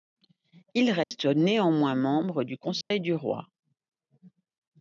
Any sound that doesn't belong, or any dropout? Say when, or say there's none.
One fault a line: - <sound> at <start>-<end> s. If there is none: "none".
- dropout at 1.0-1.1 s
- dropout at 2.8-2.9 s